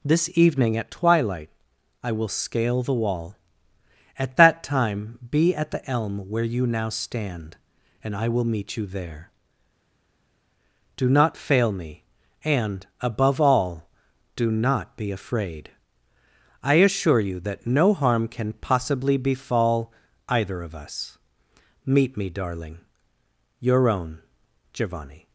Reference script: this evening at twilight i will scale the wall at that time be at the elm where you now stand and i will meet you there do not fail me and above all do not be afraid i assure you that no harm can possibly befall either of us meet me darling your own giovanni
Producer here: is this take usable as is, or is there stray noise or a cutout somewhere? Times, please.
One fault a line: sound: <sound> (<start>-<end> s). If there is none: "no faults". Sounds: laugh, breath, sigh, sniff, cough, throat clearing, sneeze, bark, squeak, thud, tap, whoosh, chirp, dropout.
no faults